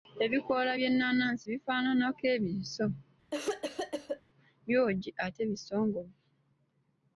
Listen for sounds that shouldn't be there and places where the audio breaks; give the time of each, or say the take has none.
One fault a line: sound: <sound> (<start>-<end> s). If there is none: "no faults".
sound: cough (3.3-4.2 s)